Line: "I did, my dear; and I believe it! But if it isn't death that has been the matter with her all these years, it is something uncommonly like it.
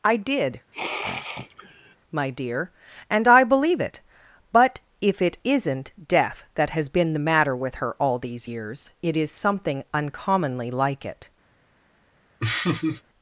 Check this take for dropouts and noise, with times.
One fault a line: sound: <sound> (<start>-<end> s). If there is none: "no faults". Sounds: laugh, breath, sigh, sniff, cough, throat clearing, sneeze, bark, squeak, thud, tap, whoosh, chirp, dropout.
sound: sniff (0.7-2.0 s)
sound: laugh (12.4-13.0 s)